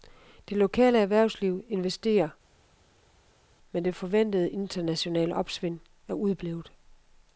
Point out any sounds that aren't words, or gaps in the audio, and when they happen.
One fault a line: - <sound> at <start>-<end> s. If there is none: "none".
none